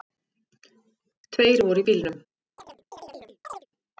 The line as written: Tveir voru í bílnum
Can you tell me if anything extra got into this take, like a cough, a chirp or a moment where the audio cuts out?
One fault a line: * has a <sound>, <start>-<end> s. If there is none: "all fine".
* has a chirp, 2.6-3.7 s